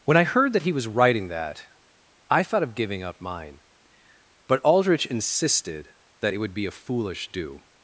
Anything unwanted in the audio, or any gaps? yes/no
no